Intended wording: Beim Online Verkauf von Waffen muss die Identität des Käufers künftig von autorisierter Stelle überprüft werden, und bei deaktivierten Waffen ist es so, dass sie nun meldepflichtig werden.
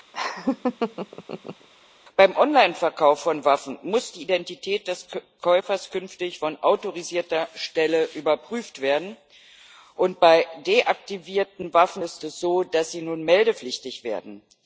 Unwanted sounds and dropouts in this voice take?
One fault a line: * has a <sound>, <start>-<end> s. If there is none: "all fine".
* has a laugh, 0.1-1.7 s